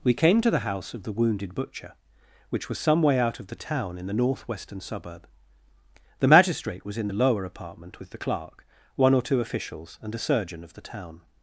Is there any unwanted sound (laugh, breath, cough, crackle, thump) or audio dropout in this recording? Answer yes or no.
no